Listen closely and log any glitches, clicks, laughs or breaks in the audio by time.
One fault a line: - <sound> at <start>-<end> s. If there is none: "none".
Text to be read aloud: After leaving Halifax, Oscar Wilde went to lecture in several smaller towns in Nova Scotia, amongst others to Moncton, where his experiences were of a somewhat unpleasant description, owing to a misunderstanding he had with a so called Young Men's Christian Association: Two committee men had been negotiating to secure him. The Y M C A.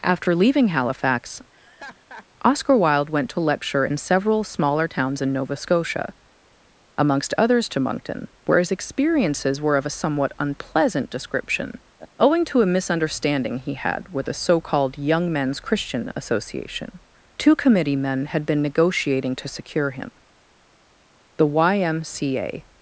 - laugh at 1.5-2.3 s